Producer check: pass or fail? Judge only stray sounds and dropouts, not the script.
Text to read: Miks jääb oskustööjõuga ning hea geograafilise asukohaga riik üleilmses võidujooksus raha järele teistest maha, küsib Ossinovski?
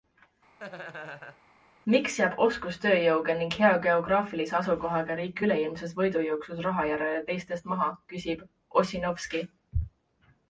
fail